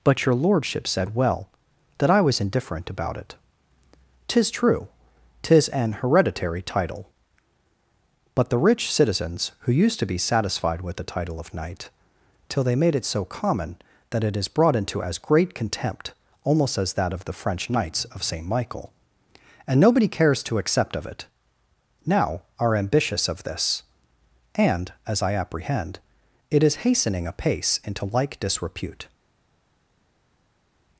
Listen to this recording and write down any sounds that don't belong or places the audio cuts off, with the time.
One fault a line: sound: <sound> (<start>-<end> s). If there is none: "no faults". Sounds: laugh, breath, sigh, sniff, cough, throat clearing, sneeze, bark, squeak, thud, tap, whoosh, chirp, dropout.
no faults